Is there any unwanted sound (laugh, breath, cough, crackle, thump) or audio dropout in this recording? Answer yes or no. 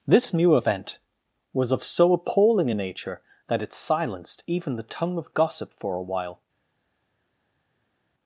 no